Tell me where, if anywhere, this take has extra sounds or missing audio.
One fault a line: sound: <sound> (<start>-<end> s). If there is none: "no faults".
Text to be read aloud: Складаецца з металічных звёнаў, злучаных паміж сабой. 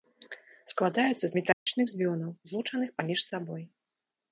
sound: dropout (1.5-1.7 s)